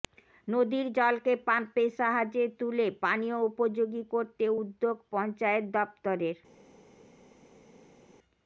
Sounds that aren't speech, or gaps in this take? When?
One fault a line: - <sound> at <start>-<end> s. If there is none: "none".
none